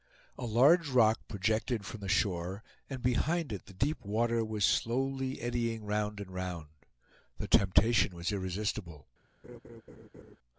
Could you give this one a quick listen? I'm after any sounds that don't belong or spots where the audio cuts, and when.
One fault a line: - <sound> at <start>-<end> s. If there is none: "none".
- laugh at 9.4-10.4 s